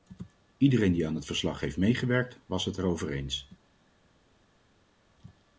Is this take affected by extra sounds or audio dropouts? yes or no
no